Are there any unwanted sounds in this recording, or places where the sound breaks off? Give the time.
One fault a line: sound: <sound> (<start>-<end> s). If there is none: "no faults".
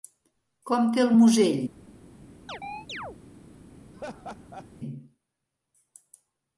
sound: chirp (2.5-3.2 s)
sound: laugh (3.9-4.7 s)